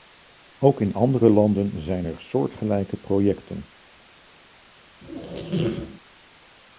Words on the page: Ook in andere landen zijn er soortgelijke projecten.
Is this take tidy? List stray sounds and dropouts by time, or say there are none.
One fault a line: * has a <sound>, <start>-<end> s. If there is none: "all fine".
* has a squeak, 5.0-6.0 s